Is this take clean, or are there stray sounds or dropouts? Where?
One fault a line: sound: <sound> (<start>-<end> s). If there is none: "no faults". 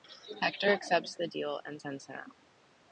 no faults